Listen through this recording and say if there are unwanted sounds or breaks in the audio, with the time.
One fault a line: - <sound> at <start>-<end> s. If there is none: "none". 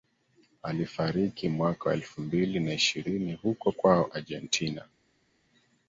none